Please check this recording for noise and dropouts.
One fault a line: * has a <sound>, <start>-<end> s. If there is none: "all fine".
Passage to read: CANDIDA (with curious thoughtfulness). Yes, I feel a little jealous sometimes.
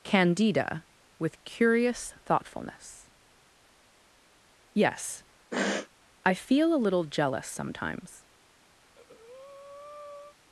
* has a sniff, 5.5-5.9 s
* has a breath, 8.8-10.4 s